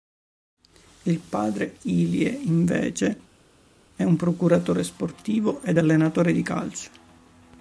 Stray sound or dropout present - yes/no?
no